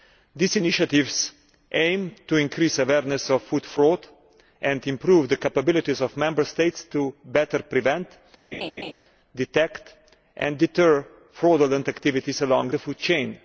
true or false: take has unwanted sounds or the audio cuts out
true